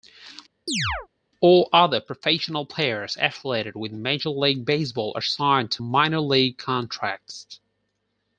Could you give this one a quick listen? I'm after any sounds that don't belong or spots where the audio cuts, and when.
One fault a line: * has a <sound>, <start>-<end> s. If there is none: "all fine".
* has a chirp, 0.7-1.1 s